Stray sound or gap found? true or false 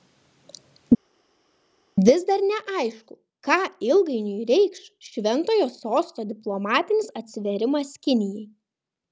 false